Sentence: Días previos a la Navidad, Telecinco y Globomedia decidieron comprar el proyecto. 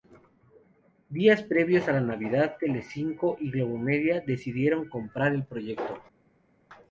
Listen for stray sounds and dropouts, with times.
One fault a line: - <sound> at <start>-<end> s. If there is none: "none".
none